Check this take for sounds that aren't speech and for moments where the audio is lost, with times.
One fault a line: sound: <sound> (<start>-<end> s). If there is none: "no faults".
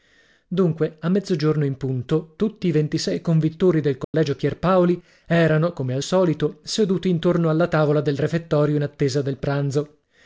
sound: dropout (4.0-4.1 s)